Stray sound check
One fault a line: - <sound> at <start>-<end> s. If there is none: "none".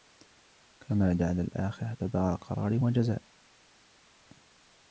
none